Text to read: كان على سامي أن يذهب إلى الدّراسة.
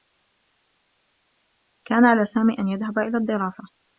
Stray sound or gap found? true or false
false